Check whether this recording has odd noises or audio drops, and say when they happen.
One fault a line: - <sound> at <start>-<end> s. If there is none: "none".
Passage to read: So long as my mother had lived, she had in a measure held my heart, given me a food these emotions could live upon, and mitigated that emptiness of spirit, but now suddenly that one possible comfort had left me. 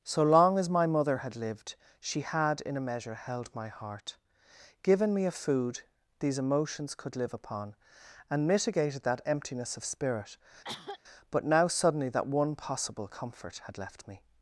- cough at 10.6-11.0 s